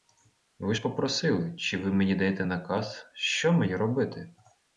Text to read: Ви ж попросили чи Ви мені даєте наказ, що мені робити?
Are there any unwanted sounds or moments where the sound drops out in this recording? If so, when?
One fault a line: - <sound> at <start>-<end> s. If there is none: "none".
none